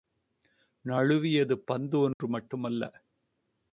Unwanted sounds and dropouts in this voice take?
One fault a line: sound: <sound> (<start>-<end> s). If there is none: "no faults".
sound: dropout (2.1-2.2 s)